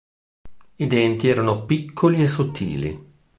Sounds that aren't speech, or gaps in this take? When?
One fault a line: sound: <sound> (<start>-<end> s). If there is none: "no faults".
no faults